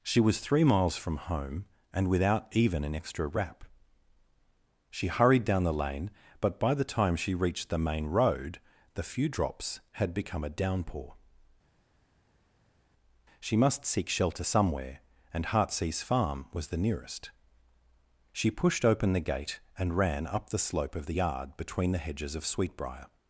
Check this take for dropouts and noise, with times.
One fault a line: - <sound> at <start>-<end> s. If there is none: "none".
none